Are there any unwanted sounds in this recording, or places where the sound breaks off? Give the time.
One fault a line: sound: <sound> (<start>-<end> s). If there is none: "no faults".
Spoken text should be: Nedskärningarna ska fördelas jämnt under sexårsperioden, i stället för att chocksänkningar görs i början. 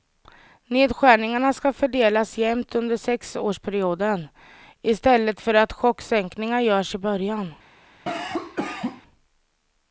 sound: cough (8.1-9.0 s)